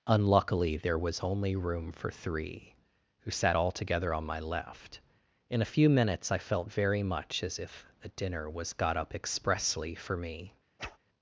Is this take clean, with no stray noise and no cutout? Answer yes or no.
no